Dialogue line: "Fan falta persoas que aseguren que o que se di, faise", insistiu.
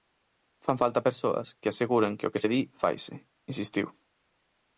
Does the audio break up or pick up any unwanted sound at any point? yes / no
no